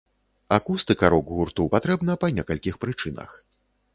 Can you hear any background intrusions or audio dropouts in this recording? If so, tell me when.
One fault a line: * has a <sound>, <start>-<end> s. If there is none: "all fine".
all fine